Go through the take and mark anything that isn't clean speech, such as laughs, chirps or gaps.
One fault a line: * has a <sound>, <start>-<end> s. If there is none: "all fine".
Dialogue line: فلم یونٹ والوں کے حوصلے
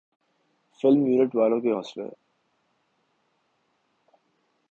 all fine